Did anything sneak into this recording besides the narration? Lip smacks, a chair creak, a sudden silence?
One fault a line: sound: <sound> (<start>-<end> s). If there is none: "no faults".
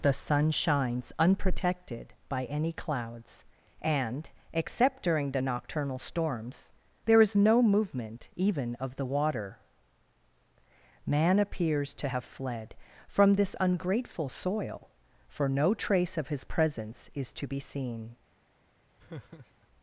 sound: laugh (19.0-19.7 s)